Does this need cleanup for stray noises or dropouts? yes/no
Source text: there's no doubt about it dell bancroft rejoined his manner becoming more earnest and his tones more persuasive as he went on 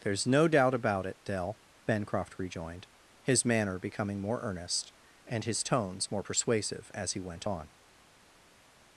no